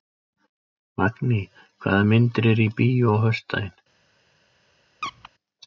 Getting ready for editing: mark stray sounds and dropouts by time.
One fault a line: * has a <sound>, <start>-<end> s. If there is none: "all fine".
* has a squeak, 5.0-5.3 s